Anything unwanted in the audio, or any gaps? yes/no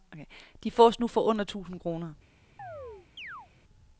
yes